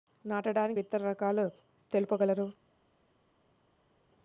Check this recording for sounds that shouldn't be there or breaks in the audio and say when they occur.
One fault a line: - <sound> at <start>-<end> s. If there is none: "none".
none